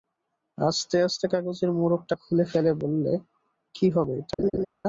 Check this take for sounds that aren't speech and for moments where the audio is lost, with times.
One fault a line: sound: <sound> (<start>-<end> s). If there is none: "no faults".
sound: laugh (4.4-4.7 s)